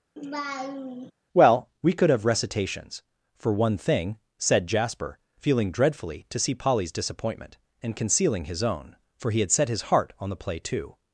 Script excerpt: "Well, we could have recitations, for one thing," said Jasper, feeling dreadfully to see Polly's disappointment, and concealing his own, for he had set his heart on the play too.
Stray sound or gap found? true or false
true